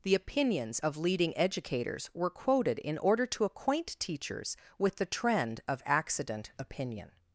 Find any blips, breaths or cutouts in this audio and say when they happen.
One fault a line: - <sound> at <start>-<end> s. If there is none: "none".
none